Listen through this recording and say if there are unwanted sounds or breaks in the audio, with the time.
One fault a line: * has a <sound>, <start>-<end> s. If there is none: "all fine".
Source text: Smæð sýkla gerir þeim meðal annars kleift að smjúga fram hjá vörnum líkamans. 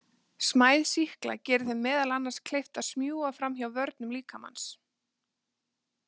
all fine